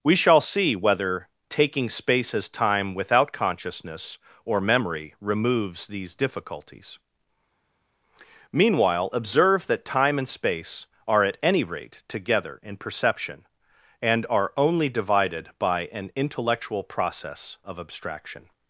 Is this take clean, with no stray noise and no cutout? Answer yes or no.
yes